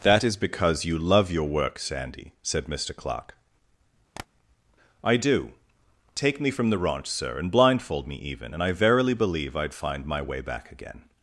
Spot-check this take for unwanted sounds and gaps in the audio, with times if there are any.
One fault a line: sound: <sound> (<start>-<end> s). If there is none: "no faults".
sound: tap (4.2-4.3 s)